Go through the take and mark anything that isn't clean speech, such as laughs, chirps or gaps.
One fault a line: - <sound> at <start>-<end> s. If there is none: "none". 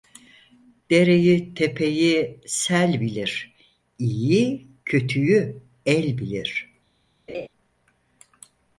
- laugh at 7.3-7.5 s